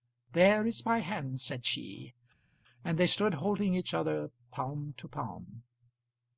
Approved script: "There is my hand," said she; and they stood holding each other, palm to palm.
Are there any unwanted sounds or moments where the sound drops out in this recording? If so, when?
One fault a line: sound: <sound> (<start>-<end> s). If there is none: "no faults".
no faults